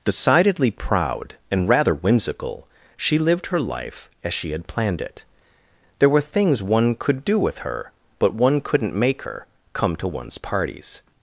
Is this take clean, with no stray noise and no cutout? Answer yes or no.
yes